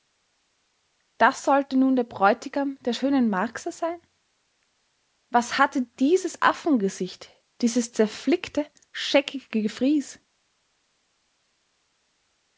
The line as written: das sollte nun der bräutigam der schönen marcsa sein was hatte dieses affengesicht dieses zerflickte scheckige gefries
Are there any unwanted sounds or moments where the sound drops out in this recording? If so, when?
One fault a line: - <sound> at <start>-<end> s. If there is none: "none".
none